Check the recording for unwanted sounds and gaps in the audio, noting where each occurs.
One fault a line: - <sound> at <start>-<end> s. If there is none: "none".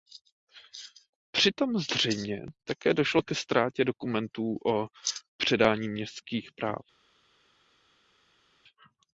none